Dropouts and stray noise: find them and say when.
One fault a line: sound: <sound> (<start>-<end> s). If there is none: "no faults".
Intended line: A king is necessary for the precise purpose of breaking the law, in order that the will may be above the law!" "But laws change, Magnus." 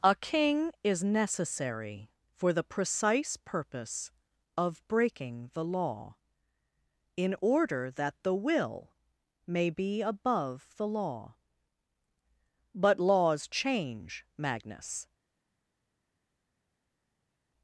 no faults